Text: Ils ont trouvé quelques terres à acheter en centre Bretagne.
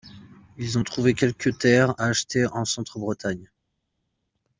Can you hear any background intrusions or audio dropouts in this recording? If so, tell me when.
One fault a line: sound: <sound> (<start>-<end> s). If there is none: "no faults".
no faults